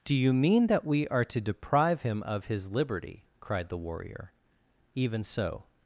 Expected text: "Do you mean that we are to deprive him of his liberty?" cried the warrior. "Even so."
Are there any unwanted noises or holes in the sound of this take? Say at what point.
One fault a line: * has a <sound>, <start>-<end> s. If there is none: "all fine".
all fine